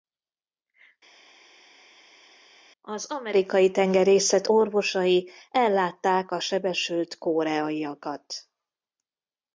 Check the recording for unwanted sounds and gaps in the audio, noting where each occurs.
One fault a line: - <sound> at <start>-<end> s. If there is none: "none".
none